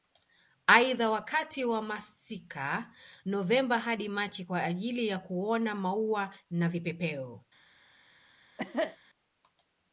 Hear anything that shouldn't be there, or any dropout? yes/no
yes